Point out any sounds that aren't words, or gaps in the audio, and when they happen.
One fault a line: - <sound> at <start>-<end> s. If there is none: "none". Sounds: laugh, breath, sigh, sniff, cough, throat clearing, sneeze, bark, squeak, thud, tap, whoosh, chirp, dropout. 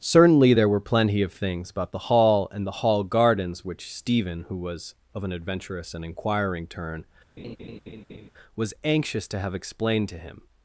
- laugh at 7.4-8.3 s